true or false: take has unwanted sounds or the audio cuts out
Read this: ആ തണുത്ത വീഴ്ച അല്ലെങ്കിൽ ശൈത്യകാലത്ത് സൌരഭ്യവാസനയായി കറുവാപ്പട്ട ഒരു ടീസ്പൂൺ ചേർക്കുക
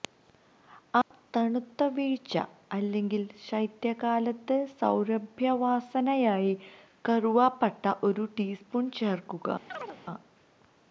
true